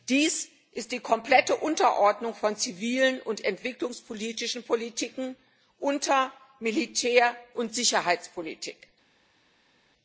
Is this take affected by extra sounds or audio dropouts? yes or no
no